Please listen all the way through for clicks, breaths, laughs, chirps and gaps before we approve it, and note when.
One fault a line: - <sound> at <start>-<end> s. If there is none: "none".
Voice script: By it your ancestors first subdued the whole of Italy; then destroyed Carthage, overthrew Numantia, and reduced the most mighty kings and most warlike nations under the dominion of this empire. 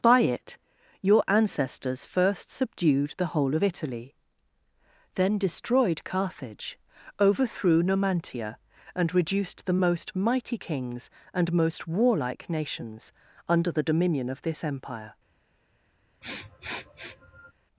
- sniff at 16.2-17.5 s